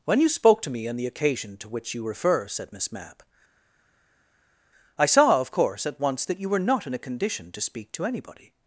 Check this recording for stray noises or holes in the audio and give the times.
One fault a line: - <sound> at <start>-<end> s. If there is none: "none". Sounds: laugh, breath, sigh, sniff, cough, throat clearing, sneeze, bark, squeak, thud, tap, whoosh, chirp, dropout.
none